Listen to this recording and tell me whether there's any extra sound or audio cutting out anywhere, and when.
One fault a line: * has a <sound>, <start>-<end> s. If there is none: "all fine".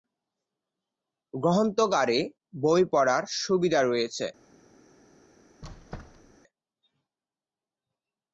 * has a squeak, 5.6-6.4 s